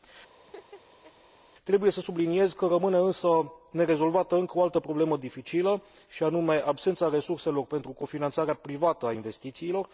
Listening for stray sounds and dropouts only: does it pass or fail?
fail